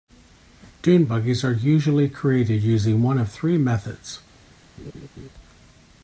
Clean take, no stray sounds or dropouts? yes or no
no